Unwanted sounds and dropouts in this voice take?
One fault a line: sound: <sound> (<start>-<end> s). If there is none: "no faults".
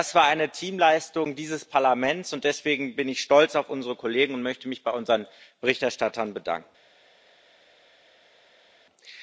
no faults